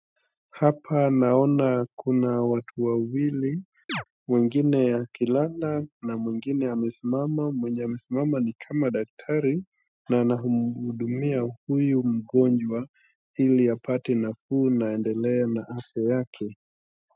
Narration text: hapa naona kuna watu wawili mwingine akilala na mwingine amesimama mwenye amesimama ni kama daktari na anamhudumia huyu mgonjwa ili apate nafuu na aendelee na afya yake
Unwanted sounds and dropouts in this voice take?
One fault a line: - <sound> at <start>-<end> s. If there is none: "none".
- chirp at 3.9-4.0 s